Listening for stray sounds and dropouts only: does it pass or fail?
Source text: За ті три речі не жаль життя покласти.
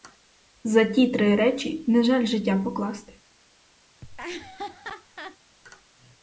fail